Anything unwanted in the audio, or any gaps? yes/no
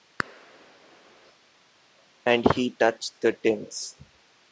no